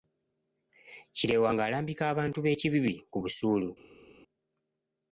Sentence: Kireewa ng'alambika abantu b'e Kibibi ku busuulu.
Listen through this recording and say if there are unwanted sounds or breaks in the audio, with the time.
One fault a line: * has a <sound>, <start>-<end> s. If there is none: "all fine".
all fine